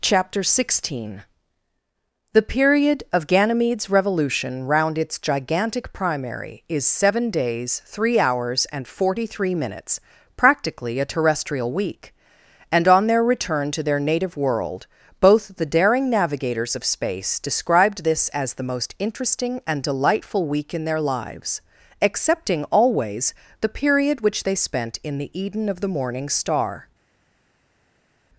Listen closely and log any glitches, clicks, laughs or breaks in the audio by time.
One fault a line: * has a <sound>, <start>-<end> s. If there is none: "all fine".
all fine